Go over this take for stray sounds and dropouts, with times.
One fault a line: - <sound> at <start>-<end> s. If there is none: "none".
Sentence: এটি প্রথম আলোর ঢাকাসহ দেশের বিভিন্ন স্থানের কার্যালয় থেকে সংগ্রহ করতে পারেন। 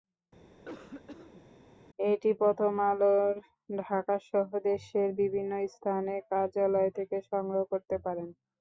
- cough at 0.5-1.4 s